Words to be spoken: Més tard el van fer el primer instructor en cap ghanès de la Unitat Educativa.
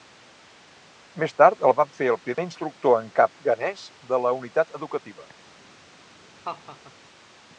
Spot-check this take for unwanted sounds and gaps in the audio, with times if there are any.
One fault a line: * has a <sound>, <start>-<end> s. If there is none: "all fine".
* has a dropout, 2.3-2.4 s
* has a laugh, 6.4-7.0 s